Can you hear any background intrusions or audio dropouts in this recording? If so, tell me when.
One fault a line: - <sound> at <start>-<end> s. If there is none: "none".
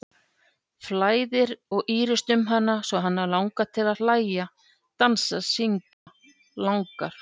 - dropout at 5.9-6.1 s